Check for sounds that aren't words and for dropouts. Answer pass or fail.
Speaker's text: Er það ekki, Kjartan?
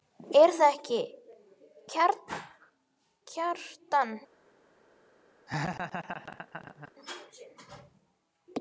fail